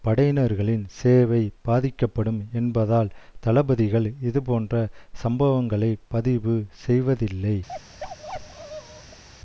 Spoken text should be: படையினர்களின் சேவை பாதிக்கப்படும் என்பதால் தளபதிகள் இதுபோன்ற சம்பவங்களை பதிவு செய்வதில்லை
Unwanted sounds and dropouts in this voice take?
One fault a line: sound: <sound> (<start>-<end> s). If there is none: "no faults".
sound: bark (7.7-9.2 s)